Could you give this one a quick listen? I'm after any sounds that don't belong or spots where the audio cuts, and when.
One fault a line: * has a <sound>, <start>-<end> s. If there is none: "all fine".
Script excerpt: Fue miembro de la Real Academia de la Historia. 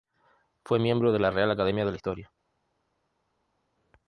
all fine